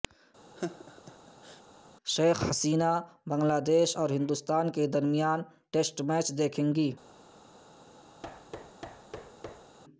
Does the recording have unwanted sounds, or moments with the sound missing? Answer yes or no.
yes